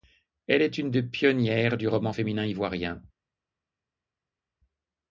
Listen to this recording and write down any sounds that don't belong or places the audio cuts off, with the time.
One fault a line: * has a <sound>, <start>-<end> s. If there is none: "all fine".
all fine